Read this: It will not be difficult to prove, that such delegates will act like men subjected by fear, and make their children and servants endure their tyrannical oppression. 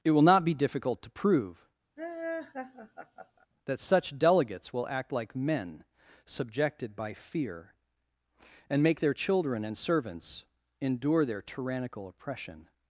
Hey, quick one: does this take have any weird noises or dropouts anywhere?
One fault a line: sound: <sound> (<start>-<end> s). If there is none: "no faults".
sound: laugh (2.0-3.5 s)